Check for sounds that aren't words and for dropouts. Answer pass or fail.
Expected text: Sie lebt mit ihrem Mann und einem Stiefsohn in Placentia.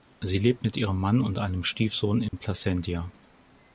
fail